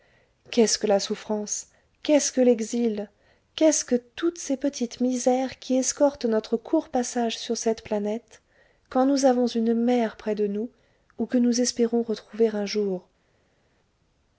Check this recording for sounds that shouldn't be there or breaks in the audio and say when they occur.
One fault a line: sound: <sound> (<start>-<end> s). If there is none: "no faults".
no faults